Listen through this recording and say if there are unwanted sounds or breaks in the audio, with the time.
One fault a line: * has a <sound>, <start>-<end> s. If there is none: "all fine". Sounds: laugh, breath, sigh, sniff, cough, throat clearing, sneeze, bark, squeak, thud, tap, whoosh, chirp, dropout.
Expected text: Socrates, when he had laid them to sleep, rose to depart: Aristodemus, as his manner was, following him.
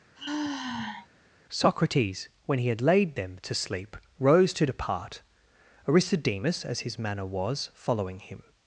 * has a sigh, 0.2-1.1 s